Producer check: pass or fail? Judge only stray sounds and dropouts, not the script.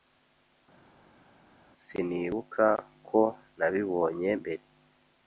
pass